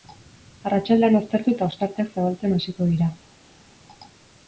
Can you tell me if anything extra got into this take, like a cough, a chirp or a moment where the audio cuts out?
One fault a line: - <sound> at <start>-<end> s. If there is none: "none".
none